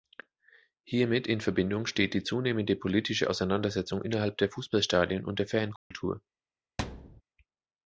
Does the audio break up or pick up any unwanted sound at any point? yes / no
yes